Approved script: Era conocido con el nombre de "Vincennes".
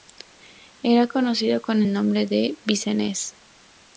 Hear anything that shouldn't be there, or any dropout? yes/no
no